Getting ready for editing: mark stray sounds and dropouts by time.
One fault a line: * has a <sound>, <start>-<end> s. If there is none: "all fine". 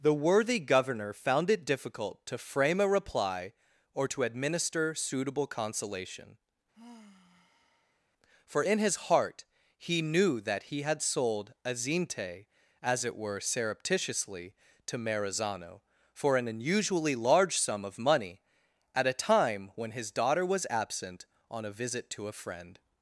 * has a sigh, 6.7-8.0 s